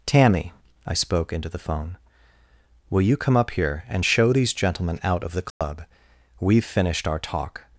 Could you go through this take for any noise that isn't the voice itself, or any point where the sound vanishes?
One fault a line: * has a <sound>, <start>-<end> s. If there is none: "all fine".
* has a dropout, 5.5-5.6 s